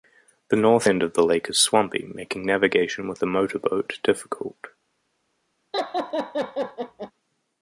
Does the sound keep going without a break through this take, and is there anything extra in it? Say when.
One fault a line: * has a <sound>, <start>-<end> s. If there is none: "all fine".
* has a laugh, 5.7-7.1 s